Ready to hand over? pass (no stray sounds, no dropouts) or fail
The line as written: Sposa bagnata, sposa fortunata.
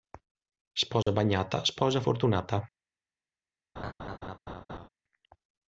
fail